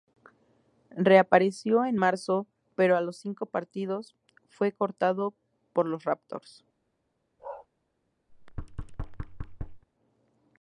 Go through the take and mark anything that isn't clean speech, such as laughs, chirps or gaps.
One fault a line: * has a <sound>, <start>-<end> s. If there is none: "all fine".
* has a bark, 7.4-7.7 s
* has a thud, 8.3-9.8 s